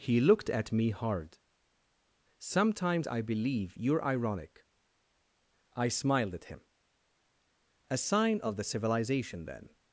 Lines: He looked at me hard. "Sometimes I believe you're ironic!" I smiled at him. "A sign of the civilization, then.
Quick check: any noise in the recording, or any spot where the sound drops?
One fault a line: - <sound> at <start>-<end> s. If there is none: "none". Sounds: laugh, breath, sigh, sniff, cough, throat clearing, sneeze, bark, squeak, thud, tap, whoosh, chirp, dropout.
none